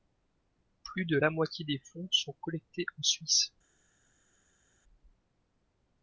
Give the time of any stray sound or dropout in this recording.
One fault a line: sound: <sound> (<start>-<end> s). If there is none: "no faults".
no faults